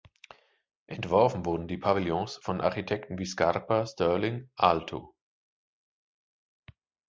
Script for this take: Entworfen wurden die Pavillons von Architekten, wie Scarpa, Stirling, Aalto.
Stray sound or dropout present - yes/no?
no